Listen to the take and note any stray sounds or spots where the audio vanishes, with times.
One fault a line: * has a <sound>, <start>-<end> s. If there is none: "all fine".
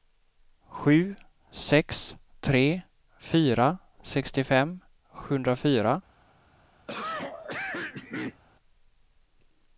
* has a cough, 6.9-8.4 s